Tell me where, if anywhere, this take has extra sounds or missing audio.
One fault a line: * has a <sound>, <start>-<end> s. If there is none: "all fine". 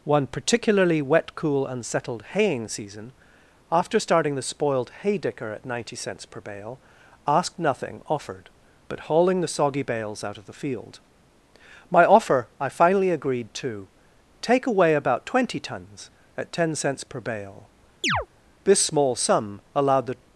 * has a chirp, 18.0-18.3 s